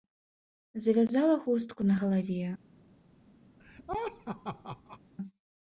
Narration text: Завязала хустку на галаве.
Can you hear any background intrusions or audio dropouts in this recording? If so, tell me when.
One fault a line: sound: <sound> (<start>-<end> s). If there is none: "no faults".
sound: laugh (3.6-5.0 s)